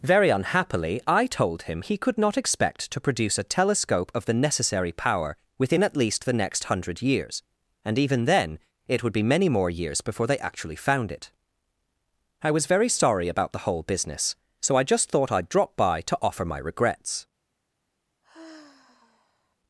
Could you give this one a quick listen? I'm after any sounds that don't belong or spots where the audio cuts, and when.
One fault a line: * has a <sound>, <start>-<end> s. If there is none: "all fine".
* has a sigh, 18.2-19.6 s